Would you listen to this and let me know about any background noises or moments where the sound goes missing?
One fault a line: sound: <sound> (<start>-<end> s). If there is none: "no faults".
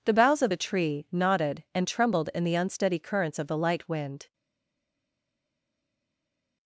no faults